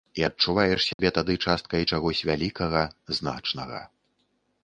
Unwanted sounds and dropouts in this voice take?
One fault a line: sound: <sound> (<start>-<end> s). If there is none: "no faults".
sound: dropout (0.9-1.0 s)